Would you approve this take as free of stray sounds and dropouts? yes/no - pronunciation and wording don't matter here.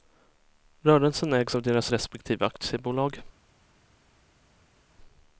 yes